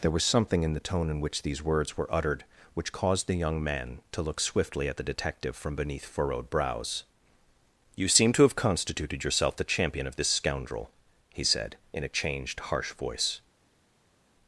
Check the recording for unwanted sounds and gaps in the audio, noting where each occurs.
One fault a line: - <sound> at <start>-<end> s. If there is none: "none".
none